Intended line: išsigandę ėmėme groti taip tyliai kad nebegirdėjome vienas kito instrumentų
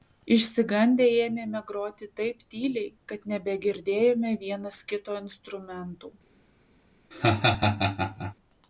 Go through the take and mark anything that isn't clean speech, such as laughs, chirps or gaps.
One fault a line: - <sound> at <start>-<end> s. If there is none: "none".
- laugh at 7.1-8.3 s